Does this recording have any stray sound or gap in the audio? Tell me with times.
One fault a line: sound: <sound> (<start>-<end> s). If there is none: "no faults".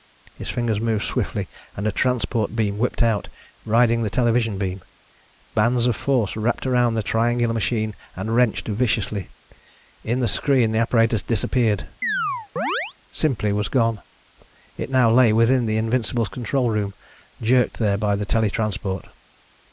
sound: chirp (12.0-12.9 s)